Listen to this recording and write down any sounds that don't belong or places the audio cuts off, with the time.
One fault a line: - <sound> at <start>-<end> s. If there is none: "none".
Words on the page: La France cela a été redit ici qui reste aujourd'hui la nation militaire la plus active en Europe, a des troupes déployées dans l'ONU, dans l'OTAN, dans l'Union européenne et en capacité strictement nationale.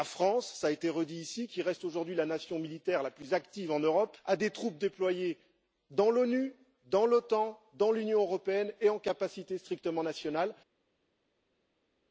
none